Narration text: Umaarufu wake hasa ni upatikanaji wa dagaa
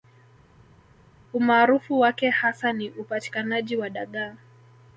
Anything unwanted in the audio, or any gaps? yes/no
no